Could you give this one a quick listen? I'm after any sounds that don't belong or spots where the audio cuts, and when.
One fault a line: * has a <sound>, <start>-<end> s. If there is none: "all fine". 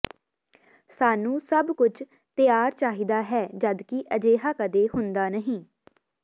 all fine